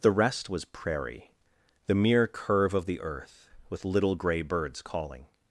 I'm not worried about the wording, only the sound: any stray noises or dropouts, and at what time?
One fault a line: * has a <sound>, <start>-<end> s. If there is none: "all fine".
all fine